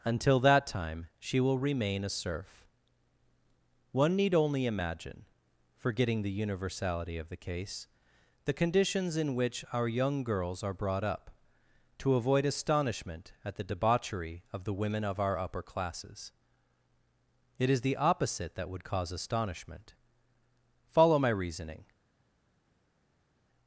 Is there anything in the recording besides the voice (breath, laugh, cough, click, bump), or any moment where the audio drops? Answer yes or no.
no